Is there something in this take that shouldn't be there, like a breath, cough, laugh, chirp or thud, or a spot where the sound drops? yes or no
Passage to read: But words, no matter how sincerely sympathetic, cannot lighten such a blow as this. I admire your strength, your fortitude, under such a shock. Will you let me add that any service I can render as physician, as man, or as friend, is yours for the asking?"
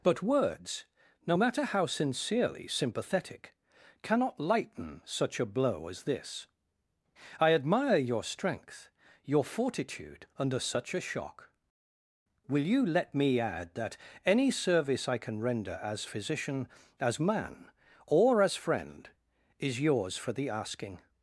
no